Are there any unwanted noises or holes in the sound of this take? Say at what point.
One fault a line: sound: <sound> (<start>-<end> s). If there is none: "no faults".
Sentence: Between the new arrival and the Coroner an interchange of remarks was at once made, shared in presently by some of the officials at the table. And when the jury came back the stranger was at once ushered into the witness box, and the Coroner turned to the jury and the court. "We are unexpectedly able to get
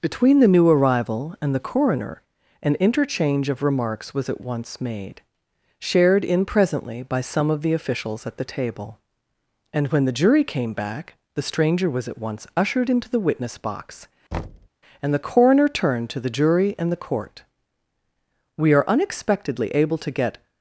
sound: thud (14.3-14.7 s)